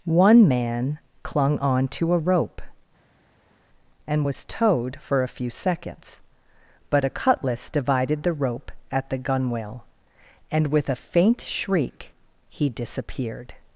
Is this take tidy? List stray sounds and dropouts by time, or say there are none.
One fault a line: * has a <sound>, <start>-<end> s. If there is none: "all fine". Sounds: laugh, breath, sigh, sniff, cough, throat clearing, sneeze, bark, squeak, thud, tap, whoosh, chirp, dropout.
all fine